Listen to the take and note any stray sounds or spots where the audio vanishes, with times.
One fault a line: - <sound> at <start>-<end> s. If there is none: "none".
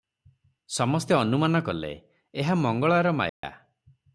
- dropout at 3.3-3.4 s